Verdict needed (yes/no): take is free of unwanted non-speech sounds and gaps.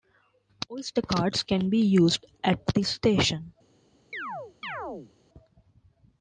no